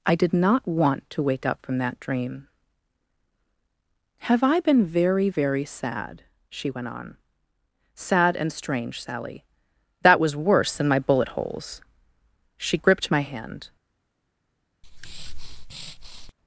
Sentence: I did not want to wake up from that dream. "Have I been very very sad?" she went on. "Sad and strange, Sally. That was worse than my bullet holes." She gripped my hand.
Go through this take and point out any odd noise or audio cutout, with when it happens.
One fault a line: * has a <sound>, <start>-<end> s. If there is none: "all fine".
* has a breath, 14.8-16.3 s